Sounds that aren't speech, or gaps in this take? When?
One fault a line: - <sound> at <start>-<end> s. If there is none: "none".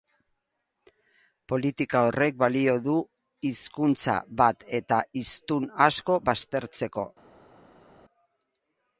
none